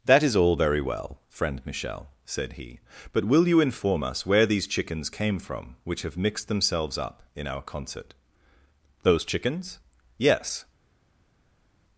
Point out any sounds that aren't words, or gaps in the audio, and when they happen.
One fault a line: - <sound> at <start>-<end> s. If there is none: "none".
none